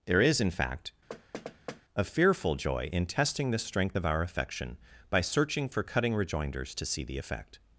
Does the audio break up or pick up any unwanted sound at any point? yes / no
yes